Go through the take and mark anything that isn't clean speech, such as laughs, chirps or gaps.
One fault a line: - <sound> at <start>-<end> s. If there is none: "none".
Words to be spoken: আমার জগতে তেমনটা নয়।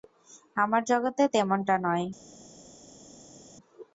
none